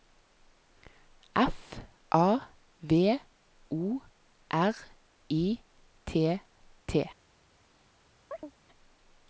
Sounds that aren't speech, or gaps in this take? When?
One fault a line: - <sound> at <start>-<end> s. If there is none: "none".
- chirp at 8.3-8.5 s